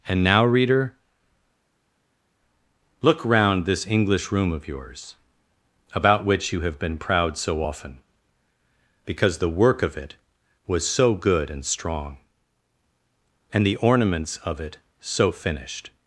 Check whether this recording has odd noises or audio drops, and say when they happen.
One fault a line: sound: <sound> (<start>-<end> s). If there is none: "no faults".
no faults